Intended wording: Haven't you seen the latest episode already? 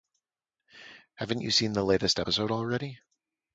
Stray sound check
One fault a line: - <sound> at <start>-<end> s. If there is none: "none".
none